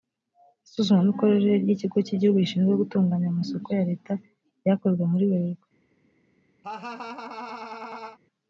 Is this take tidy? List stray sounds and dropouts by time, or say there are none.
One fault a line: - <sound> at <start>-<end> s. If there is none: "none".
- laugh at 6.6-8.2 s